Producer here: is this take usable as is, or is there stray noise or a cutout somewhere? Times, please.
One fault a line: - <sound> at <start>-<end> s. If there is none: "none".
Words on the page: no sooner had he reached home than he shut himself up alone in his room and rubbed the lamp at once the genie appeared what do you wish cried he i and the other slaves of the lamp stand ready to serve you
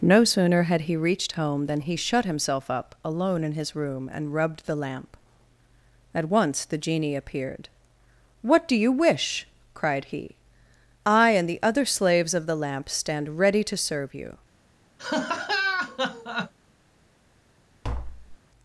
- laugh at 15.0-16.5 s
- tap at 17.8-18.4 s